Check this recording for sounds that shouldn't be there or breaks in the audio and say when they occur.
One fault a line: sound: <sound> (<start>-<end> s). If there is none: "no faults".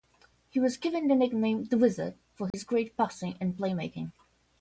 sound: dropout (2.5-2.5 s)